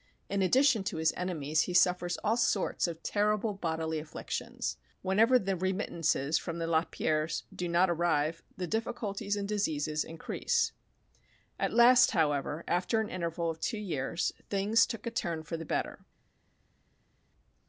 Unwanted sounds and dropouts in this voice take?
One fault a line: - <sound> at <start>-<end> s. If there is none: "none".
none